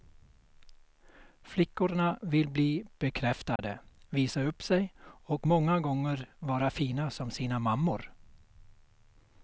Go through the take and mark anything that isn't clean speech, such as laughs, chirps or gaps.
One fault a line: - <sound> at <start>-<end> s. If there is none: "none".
- dropout at 3.6-3.6 s